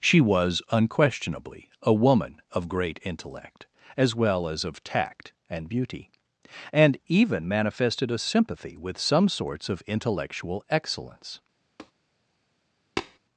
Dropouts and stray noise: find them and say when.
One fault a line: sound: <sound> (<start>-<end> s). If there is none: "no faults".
sound: tap (11.8-11.9 s)
sound: tap (13.0-13.2 s)